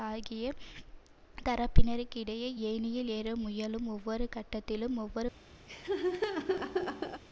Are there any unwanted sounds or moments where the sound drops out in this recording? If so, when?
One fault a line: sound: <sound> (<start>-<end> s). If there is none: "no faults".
sound: laugh (5.7-7.2 s)